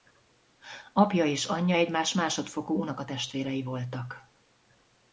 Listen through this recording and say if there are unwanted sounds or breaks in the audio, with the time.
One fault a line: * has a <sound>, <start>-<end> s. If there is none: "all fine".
all fine